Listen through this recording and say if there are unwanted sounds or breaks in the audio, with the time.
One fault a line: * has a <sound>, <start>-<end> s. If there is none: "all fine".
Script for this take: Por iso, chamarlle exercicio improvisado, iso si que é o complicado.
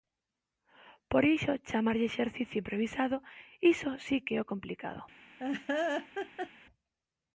* has a laugh, 5.4-6.5 s